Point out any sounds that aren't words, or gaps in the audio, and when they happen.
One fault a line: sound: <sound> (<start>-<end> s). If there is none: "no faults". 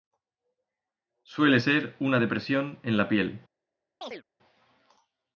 sound: chirp (4.0-4.2 s)